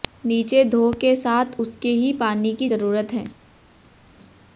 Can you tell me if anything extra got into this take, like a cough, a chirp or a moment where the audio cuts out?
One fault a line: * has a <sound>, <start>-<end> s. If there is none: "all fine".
all fine